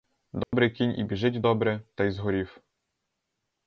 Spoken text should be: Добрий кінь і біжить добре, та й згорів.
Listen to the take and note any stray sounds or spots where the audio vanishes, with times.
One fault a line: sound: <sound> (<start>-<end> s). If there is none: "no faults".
sound: dropout (0.4-0.5 s)